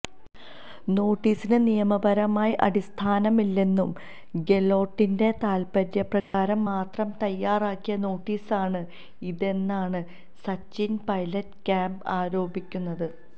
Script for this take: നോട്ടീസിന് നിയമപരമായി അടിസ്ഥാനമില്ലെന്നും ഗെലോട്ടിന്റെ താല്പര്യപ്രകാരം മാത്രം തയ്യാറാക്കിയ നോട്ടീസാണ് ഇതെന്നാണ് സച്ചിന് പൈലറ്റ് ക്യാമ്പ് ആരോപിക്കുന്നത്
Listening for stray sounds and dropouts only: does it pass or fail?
fail